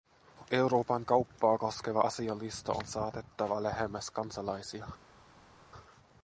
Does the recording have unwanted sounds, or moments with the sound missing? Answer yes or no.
no